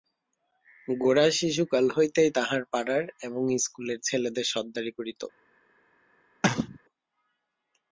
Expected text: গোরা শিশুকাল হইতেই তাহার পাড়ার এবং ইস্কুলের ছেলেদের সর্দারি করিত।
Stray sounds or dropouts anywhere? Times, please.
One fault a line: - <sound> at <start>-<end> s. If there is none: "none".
- cough at 6.4-6.8 s